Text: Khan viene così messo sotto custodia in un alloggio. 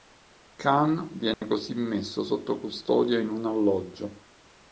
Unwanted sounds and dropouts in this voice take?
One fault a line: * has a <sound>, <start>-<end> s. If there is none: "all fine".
* has a dropout, 1.3-1.4 s